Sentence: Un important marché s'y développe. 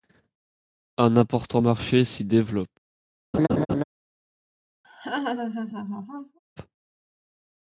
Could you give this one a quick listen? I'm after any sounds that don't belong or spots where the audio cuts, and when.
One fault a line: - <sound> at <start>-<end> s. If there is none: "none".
- laugh at 3.3-3.8 s
- laugh at 4.8-6.4 s